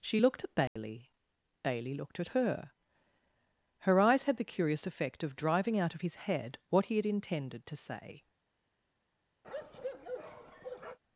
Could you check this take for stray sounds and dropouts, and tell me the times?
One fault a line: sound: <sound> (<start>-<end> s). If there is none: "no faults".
sound: dropout (0.7-0.8 s)
sound: bark (9.4-11.0 s)